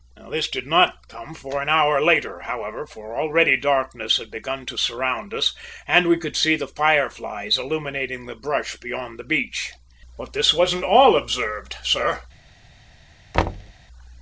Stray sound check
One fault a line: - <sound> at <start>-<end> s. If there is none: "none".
- thud at 13.3-13.7 s